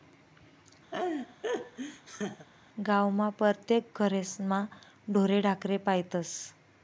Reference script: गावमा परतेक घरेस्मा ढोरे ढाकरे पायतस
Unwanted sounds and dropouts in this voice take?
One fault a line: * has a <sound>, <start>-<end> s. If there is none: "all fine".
* has a laugh, 0.9-2.5 s